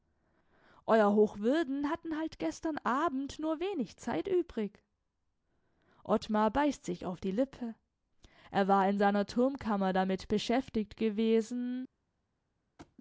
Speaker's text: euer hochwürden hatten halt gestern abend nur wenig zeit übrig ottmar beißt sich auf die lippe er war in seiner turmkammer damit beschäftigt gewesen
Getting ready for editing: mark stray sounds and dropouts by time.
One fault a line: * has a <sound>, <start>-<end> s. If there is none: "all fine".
* has a thud, 12.8-13.0 s